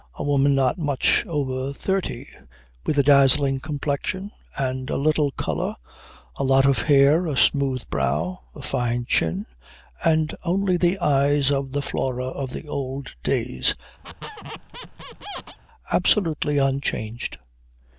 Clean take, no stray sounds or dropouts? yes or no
no